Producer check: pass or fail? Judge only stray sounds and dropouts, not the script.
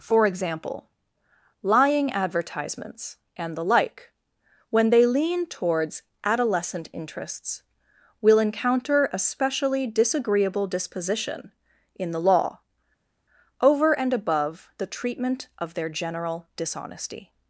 pass